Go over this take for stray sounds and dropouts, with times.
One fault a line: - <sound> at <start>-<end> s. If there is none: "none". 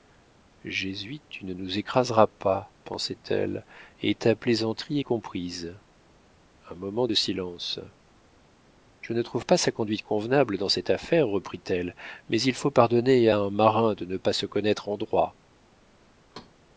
- thud at 16.3-16.6 s